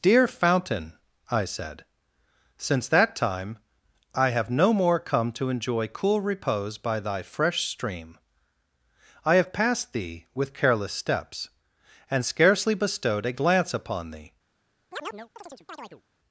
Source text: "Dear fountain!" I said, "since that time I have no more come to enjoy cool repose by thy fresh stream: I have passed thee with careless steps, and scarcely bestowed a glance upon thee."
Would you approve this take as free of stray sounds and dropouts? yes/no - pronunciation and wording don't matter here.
no